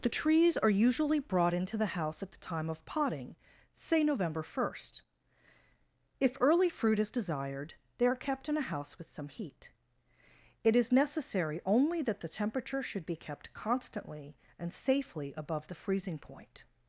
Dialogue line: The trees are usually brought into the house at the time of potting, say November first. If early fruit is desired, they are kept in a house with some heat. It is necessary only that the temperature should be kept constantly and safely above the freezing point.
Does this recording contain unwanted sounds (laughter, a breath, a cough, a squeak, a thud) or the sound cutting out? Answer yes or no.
no